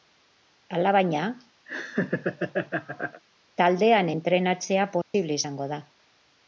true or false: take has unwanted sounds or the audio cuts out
true